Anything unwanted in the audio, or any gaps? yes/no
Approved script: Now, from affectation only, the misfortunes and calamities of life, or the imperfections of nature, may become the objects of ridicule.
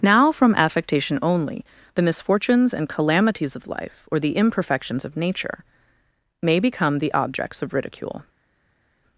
no